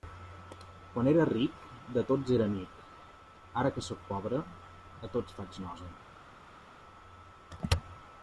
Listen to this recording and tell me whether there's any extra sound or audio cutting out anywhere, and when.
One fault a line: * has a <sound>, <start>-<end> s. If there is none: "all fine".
all fine